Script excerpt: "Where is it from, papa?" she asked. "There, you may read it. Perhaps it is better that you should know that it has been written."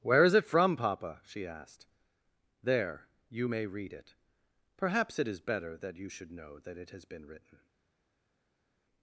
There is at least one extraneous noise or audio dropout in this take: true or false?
false